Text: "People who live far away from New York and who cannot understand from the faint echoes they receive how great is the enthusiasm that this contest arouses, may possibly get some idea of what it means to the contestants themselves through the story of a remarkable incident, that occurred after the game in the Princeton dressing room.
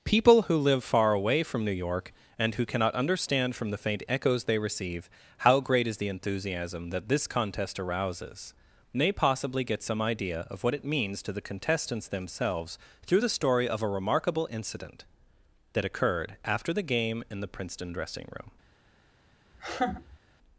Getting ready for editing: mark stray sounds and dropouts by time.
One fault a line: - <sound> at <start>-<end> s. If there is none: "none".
- laugh at 19.5-20.2 s